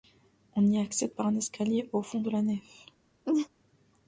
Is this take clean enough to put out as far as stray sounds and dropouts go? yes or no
no